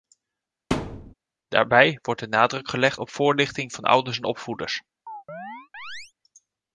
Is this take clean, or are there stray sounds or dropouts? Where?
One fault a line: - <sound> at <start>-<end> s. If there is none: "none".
- thud at 0.7-1.1 s
- chirp at 5.1-6.1 s